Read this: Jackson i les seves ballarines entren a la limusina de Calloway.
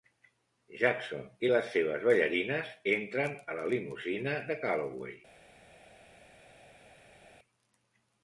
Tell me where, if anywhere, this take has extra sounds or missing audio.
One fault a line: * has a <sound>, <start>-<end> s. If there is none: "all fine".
all fine